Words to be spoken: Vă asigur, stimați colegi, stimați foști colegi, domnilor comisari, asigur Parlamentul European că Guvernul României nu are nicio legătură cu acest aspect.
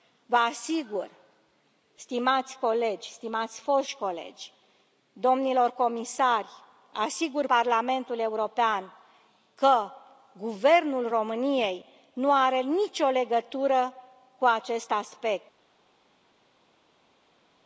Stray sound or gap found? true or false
false